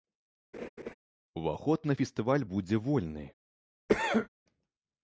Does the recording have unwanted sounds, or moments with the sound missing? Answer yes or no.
yes